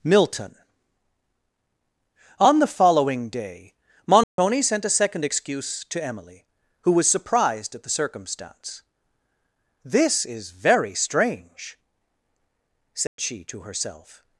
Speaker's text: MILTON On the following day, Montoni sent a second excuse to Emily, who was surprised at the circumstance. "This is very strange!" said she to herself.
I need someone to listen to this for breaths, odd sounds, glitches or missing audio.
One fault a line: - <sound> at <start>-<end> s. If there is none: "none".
- dropout at 4.2-4.4 s
- dropout at 13.1-13.2 s